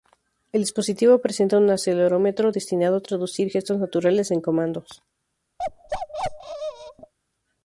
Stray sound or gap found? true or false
true